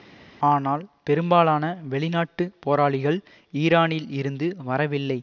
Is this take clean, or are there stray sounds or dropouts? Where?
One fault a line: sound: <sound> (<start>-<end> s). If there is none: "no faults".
no faults